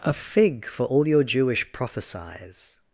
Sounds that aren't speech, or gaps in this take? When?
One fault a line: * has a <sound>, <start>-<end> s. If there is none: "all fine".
all fine